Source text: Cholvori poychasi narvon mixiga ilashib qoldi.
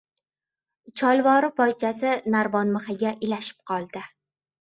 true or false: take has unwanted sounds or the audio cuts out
false